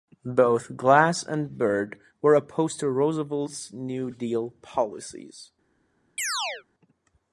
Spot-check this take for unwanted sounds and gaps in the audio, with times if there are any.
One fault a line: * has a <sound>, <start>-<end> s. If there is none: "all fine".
* has a chirp, 6.2-6.6 s